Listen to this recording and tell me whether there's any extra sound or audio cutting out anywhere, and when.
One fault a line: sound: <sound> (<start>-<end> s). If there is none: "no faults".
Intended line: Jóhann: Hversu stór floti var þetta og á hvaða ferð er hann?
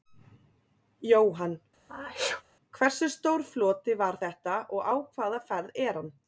sound: sneeze (1.9-2.4 s)